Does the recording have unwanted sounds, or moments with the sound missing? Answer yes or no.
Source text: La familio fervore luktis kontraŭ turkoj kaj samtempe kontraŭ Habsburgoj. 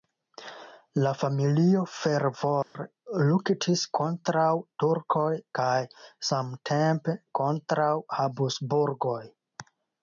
yes